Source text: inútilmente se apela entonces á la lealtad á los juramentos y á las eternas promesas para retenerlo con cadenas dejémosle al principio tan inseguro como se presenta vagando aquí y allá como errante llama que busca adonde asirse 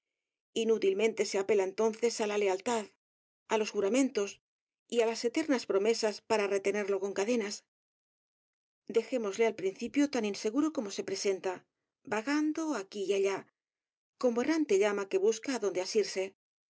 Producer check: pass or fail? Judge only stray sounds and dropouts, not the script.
pass